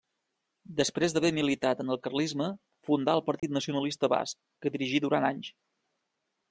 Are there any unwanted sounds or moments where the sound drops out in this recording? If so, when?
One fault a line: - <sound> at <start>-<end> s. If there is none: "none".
- dropout at 3.4-3.4 s